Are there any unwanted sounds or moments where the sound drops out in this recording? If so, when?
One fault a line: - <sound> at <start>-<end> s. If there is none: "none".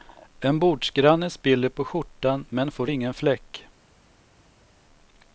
none